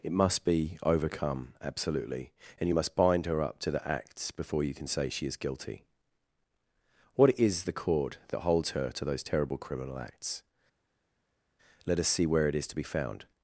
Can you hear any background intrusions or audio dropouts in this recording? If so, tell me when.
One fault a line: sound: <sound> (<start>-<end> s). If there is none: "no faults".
no faults